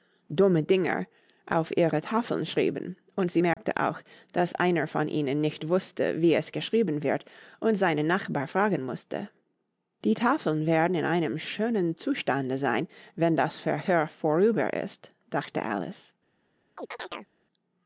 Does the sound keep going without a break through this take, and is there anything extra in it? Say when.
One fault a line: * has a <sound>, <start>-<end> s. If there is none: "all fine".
* has a dropout, 3.5-3.6 s
* has a chirp, 16.8-17.3 s